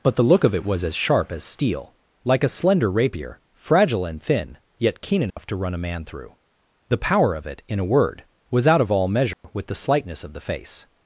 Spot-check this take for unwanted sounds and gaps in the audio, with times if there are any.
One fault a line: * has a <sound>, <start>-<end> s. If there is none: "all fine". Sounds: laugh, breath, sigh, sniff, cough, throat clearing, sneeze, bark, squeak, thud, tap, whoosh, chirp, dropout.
* has a dropout, 5.3-5.4 s
* has a dropout, 9.3-9.4 s